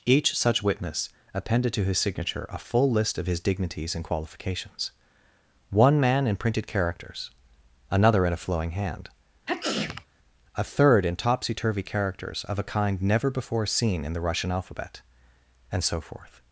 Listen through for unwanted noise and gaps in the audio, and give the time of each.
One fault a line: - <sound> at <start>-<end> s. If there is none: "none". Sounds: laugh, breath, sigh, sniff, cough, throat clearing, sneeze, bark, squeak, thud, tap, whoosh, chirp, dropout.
- sneeze at 9.5-10.1 s